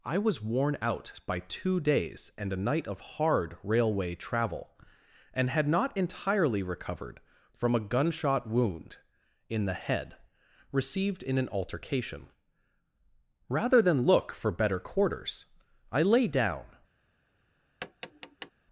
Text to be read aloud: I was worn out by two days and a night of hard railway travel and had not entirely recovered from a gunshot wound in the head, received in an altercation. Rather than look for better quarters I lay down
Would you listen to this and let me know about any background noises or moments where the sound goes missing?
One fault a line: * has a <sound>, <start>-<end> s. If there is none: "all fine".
* has a tap, 17.8-18.5 s